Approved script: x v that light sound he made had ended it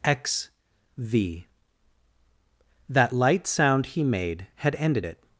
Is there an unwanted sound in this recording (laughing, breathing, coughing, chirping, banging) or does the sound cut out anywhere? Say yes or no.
no